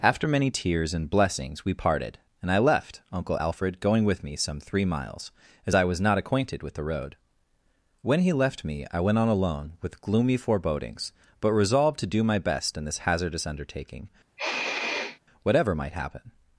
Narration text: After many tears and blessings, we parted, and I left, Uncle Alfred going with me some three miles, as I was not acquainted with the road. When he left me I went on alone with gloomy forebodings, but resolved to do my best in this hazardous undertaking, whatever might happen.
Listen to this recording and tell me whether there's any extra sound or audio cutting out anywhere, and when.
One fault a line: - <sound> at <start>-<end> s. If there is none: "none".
- sniff at 14.4-15.2 s